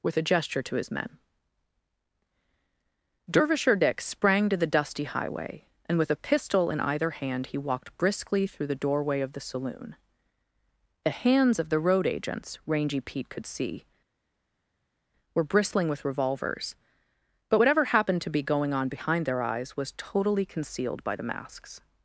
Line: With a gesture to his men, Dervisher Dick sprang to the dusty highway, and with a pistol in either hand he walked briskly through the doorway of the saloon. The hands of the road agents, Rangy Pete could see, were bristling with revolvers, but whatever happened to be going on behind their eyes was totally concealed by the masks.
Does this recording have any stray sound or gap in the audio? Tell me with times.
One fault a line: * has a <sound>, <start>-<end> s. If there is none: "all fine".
all fine